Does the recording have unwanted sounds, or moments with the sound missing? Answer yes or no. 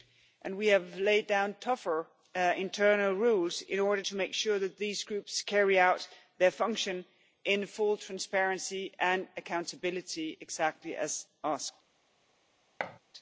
yes